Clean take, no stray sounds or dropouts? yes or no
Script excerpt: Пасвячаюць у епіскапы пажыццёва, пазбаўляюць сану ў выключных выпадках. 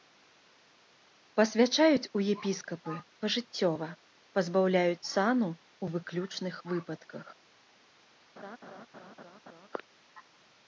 no